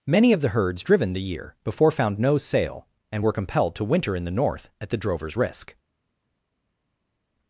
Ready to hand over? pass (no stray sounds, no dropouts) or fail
pass